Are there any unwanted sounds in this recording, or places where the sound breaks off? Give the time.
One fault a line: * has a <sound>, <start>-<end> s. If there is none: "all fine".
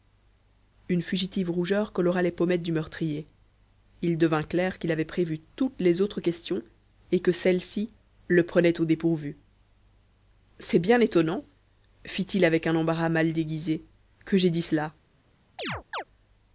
* has a chirp, 15.6-16.0 s